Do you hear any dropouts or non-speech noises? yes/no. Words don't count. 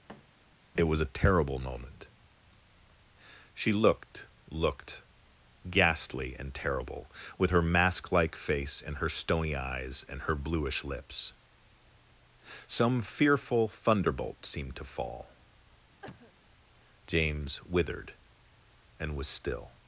yes